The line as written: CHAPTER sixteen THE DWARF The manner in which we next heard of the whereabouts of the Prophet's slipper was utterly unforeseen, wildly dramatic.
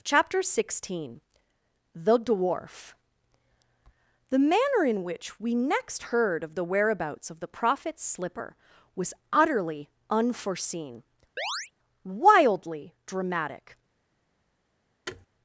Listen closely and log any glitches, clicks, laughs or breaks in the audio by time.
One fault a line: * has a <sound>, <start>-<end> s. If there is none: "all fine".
* has a chirp, 11.4-11.7 s
* has a thud, 15.1-15.3 s